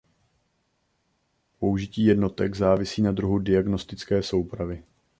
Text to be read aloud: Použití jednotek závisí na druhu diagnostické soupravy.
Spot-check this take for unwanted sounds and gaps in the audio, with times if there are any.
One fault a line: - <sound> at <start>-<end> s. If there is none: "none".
none